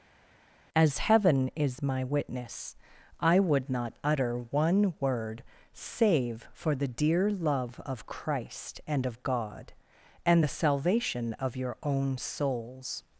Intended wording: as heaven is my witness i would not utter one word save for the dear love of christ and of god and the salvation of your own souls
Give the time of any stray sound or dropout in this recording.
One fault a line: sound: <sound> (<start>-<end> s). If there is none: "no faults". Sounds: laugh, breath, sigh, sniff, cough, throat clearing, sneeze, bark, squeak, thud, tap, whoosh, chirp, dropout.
no faults